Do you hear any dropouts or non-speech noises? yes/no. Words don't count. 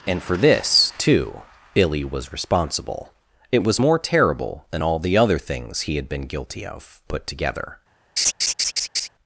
yes